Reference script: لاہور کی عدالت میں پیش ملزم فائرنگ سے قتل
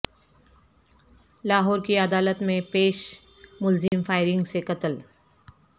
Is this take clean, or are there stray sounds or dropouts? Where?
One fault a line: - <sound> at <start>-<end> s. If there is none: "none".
- dropout at 3.9-3.9 s